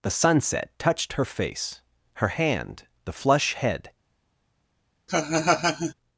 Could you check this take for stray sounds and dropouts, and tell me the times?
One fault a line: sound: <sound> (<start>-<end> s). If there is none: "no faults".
sound: laugh (5.1-5.9 s)